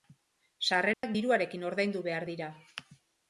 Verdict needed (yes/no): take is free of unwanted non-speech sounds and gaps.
no